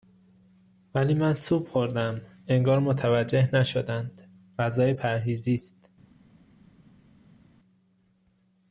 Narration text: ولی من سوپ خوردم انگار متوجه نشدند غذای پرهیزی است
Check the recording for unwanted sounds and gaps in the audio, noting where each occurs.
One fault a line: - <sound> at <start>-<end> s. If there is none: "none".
none